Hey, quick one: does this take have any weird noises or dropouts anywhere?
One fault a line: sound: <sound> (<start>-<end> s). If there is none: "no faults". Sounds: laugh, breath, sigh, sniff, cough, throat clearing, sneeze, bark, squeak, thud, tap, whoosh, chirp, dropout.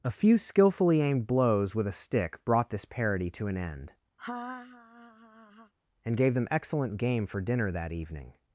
sound: laugh (4.2-5.7 s)